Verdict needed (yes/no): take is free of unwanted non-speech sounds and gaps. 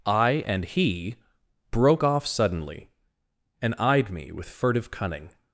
yes